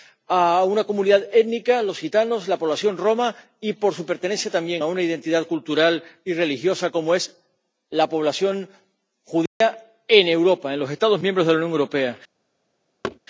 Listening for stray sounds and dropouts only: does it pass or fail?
fail